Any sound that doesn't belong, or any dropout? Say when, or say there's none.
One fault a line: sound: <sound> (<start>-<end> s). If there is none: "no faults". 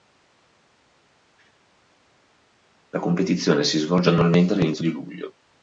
no faults